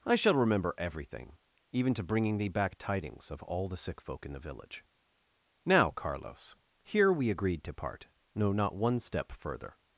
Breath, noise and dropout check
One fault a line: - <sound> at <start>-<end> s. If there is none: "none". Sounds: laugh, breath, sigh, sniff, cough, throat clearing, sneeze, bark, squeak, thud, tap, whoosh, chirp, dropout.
none